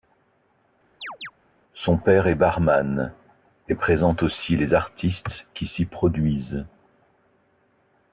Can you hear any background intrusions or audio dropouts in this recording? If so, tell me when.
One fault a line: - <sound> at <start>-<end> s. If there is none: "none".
- chirp at 1.0-1.3 s